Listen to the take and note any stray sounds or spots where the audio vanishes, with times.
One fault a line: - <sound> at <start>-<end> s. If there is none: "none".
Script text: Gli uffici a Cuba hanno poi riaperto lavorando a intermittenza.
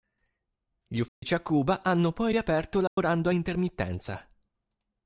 - dropout at 1.1-1.2 s
- dropout at 2.9-3.0 s